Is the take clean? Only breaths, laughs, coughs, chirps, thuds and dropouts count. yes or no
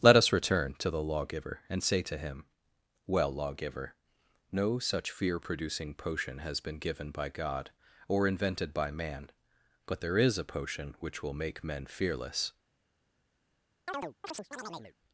no